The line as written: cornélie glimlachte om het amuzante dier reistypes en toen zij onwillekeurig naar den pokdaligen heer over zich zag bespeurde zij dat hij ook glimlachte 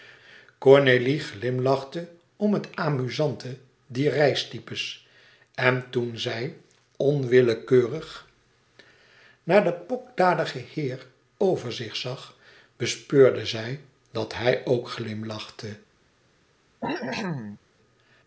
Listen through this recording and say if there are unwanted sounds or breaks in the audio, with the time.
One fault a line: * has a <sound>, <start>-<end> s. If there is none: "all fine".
* has a cough, 16.8-17.6 s